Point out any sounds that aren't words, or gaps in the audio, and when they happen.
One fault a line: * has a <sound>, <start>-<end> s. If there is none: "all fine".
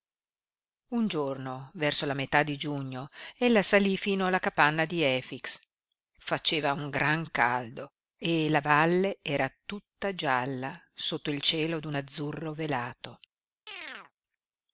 * has a chirp, 13.7-14.1 s